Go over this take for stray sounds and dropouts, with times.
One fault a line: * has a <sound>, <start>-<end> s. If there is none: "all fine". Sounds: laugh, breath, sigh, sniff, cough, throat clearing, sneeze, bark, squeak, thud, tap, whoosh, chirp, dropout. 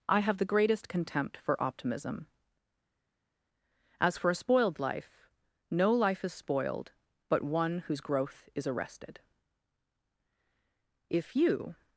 all fine